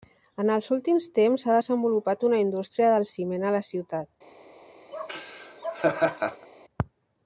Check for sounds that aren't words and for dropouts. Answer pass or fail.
fail